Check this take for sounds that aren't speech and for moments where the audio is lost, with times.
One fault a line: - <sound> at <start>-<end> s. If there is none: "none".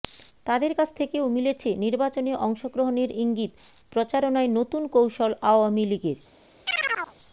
- chirp at 6.7-7.1 s